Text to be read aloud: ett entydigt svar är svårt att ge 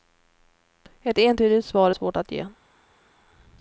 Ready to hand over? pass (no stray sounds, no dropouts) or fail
pass